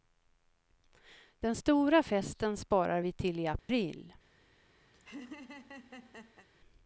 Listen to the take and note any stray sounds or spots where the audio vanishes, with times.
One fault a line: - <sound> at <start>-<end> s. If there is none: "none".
- dropout at 3.6-3.7 s
- laugh at 4.9-6.5 s